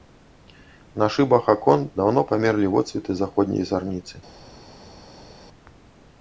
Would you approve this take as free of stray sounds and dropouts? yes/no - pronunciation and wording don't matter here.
yes